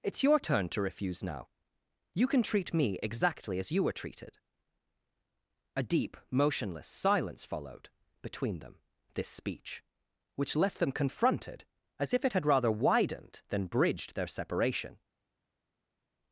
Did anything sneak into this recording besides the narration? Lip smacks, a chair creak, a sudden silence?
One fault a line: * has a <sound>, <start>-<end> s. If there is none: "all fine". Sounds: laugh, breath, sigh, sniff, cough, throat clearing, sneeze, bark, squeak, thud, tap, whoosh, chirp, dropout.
all fine